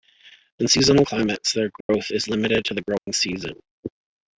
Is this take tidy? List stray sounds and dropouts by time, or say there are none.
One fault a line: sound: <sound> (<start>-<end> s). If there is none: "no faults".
sound: dropout (1.8-1.9 s)
sound: dropout (3.0-3.1 s)